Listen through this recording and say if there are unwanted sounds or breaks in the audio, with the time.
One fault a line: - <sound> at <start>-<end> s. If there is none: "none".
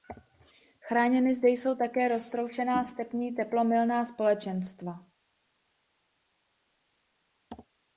none